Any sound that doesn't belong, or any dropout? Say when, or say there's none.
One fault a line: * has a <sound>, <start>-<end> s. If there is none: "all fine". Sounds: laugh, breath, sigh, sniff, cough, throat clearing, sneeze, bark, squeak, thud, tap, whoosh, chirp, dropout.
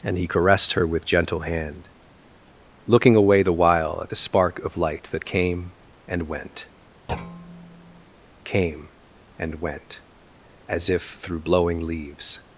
* has a thud, 7.1-8.1 s